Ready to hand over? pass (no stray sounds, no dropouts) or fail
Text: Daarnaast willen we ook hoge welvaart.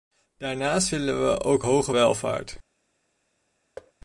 fail